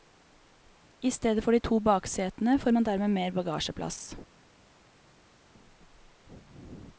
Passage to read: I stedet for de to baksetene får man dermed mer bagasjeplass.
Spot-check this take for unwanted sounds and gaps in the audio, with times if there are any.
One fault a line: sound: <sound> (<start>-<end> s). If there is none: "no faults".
no faults